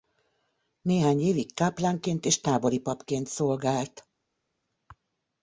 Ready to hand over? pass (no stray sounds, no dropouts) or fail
pass